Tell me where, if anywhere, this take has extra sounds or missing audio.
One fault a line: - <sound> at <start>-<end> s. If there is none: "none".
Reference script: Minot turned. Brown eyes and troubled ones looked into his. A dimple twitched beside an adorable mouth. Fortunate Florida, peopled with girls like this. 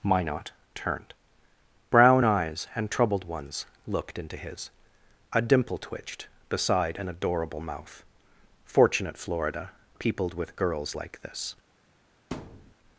- thud at 12.3-12.7 s